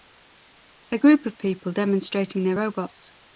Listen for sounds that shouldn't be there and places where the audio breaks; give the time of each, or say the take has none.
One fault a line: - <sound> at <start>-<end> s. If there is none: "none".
none